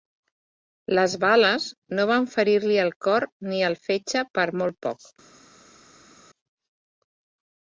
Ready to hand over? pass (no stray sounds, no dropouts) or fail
pass